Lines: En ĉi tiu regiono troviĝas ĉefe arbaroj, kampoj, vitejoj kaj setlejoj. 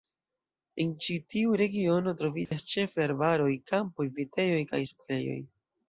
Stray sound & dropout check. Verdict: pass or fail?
fail